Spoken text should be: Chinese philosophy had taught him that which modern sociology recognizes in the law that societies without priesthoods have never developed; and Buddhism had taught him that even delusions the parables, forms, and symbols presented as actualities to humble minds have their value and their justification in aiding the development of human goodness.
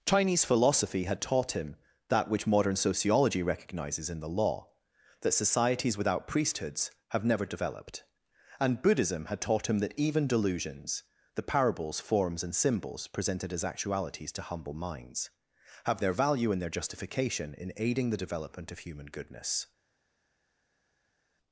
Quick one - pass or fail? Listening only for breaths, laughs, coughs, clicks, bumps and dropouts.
pass